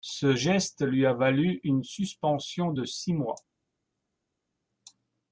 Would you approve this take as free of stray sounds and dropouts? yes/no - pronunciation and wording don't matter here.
yes